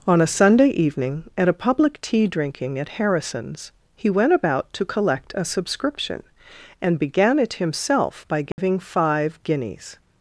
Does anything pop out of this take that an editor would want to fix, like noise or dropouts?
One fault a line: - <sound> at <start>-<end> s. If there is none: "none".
- dropout at 8.5-8.6 s